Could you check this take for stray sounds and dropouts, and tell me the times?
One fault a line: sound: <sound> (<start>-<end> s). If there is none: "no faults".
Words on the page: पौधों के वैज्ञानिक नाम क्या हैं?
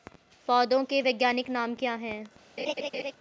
sound: laugh (2.6-3.1 s)